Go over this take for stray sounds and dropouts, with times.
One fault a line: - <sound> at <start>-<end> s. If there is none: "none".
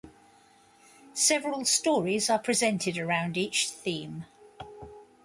none